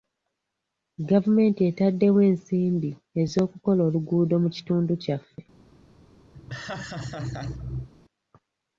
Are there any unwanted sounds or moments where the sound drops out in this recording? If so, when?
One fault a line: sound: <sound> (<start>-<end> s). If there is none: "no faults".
sound: laugh (6.3-7.9 s)